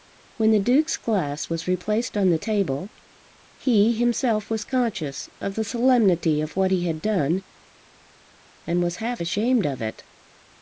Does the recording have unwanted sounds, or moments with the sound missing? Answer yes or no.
no